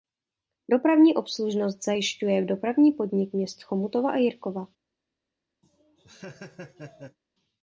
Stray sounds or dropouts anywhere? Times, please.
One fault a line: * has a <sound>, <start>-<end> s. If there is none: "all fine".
* has a laugh, 5.6-7.2 s